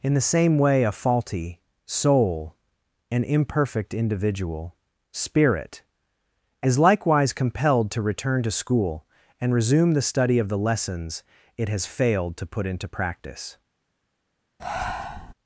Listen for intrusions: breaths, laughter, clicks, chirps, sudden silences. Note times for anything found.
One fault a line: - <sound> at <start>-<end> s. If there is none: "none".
- breath at 14.6-15.3 s